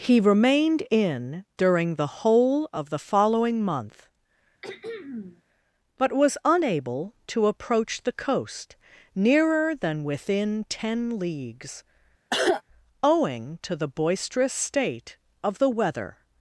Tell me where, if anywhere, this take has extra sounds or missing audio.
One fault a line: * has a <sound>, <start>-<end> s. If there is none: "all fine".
* has a throat clearing, 4.6-5.4 s
* has a cough, 12.3-12.6 s